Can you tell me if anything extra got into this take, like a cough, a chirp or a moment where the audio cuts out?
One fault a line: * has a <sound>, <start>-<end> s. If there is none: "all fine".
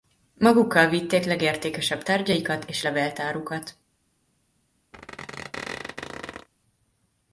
* has a squeak, 4.9-6.5 s